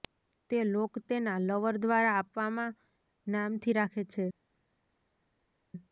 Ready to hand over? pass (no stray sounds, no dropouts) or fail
pass